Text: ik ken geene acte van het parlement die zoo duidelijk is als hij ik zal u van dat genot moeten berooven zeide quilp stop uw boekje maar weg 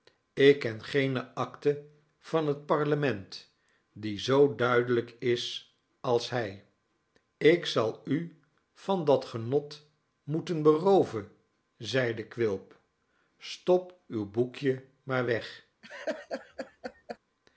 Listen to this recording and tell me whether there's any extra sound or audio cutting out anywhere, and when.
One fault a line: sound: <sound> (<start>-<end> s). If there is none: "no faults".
sound: laugh (15.8-17.2 s)